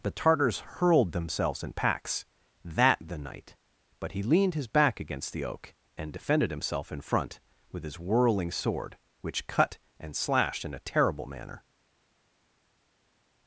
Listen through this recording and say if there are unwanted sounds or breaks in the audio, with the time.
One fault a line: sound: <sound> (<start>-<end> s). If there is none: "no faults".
no faults